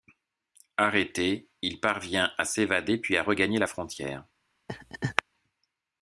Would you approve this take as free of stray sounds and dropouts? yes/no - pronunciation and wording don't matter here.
no